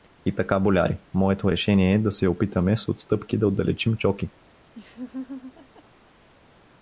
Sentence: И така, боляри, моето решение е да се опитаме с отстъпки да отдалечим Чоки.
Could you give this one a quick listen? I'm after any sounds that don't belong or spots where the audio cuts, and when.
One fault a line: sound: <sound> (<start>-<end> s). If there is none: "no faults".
sound: laugh (4.7-5.8 s)